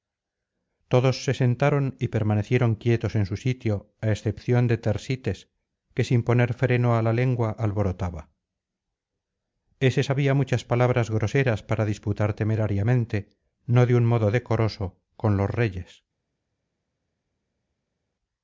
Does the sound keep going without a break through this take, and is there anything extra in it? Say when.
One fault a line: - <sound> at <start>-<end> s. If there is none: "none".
none